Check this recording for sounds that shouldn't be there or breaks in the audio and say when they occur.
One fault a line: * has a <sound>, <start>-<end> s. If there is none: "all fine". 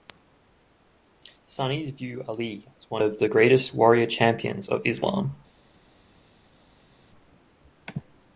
all fine